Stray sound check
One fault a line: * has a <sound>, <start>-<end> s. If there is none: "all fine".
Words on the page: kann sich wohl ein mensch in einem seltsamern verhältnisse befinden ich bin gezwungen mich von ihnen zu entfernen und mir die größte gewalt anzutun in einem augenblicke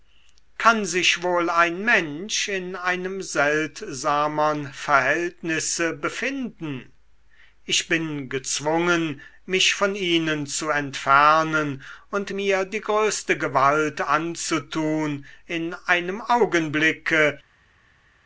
all fine